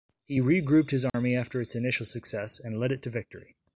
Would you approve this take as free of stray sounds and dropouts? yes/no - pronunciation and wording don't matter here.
no